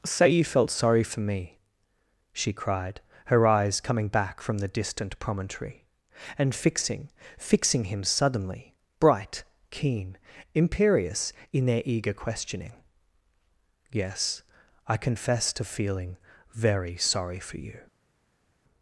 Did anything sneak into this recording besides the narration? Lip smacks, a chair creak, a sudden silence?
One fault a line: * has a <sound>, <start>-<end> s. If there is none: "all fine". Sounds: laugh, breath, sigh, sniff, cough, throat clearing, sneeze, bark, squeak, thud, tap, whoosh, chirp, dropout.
all fine